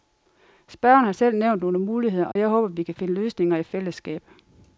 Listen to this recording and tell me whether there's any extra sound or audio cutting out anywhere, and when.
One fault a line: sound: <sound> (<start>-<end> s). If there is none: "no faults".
sound: dropout (2.3-2.4 s)